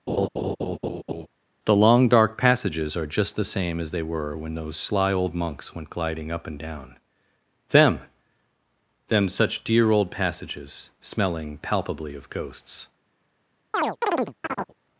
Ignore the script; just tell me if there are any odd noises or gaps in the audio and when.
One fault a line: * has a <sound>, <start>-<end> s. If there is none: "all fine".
* has a laugh, 0.1-1.3 s
* has a chirp, 13.7-14.7 s